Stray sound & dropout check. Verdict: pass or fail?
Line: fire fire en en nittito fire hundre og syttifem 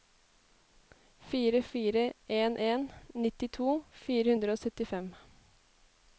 pass